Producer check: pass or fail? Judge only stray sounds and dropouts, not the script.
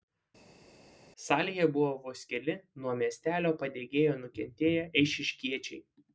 pass